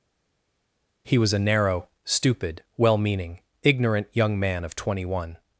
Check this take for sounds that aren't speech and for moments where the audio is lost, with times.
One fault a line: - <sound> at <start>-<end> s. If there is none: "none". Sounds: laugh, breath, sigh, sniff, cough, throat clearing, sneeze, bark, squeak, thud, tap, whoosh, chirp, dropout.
none